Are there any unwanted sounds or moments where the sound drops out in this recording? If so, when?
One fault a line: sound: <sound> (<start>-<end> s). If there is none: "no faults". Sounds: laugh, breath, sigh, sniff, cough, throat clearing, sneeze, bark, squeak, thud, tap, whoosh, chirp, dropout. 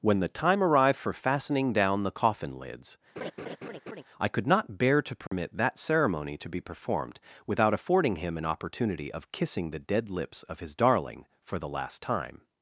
sound: laugh (3.2-4.0 s)
sound: dropout (5.3-5.3 s)